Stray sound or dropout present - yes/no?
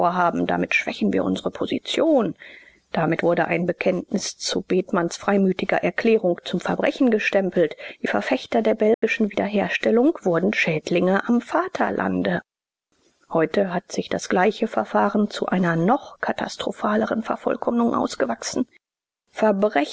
yes